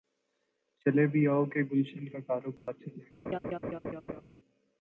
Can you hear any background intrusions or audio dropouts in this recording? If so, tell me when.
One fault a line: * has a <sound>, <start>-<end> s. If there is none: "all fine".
* has a dropout, 2.6-2.7 s
* has a laugh, 3.3-4.2 s